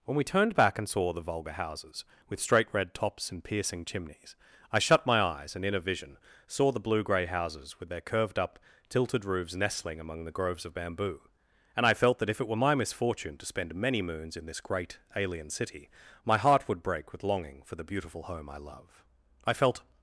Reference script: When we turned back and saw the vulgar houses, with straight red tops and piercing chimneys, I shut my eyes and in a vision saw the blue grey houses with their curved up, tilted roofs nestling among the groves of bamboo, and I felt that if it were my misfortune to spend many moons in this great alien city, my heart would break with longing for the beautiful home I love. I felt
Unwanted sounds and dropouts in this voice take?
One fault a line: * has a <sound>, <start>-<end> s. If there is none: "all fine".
all fine